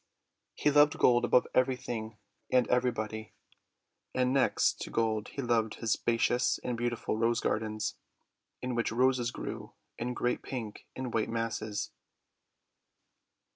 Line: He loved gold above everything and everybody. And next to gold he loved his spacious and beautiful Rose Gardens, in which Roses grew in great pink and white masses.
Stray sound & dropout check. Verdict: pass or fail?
pass